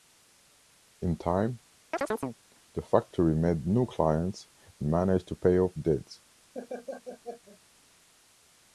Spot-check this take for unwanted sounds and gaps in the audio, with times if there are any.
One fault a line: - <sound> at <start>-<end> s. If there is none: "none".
- chirp at 1.9-2.4 s
- laugh at 6.5-7.6 s